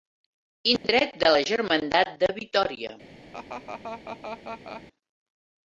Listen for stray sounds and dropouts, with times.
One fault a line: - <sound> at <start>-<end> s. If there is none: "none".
- dropout at 0.8-0.8 s
- laugh at 3.3-4.8 s